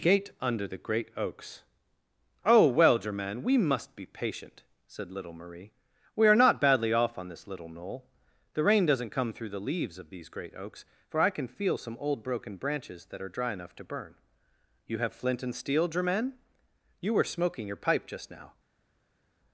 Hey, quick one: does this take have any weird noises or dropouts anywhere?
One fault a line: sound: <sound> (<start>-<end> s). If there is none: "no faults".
no faults